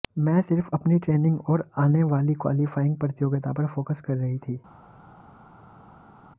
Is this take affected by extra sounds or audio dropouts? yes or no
no